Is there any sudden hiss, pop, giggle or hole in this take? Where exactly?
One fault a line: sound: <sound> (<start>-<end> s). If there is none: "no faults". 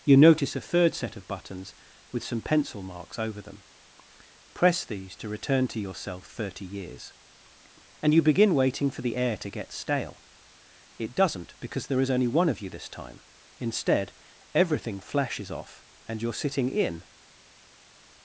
no faults